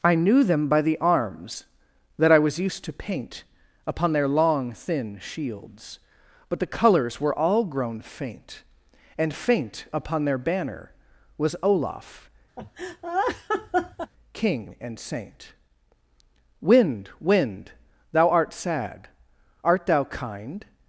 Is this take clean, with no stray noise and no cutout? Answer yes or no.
no